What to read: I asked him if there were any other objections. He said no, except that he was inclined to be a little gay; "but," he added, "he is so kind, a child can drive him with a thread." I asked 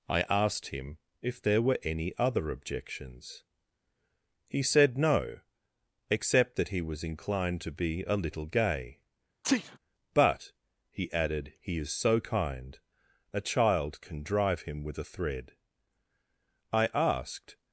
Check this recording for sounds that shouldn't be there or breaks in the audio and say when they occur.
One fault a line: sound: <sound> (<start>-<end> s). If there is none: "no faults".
sound: sneeze (9.4-9.8 s)